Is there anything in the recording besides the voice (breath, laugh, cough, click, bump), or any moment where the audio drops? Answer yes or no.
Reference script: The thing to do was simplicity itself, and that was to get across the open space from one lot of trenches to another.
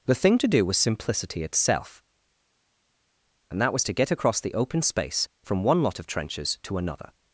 no